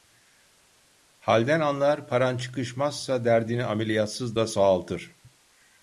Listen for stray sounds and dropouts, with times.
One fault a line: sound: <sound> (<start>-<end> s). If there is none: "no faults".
no faults